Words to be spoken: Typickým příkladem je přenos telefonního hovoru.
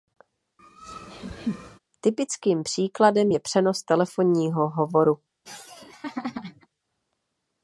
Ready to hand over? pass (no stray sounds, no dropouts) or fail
fail